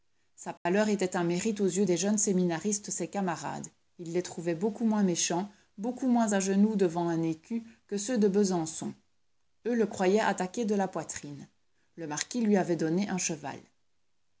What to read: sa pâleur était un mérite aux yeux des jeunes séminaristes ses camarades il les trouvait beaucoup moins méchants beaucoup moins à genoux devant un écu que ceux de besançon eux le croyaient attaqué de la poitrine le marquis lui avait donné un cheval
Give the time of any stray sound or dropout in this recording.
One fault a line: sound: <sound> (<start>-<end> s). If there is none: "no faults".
sound: dropout (0.6-0.7 s)